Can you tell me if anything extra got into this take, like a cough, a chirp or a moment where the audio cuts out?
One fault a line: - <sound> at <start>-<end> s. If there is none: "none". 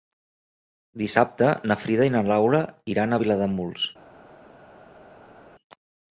none